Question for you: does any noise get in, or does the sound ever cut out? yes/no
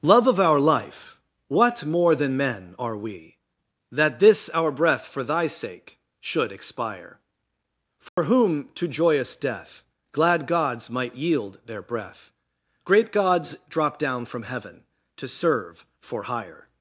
yes